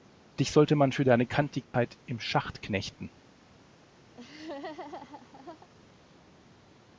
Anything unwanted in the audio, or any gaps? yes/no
yes